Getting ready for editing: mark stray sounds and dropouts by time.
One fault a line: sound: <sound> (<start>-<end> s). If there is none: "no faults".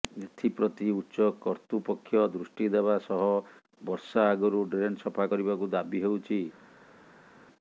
no faults